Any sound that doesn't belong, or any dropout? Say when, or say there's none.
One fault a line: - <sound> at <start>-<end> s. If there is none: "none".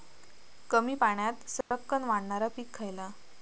- dropout at 1.6-1.7 s